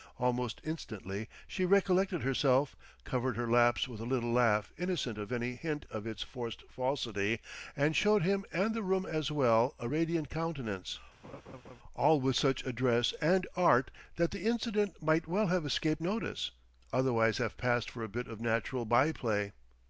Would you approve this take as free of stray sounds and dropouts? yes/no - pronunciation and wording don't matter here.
no